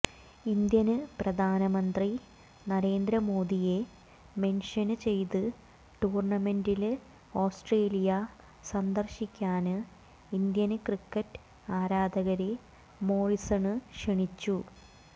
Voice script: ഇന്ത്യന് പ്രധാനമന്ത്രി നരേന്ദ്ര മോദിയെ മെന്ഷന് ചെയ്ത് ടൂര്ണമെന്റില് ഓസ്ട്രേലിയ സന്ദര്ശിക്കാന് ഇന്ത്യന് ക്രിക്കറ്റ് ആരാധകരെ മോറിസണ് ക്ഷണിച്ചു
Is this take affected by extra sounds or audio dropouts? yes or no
no